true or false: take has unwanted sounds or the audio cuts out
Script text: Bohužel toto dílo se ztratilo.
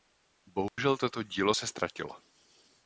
true